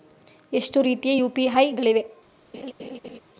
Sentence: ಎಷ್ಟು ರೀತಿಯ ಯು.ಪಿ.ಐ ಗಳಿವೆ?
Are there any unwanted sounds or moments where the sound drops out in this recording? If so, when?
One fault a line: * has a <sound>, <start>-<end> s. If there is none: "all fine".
* has a laugh, 2.5-3.2 s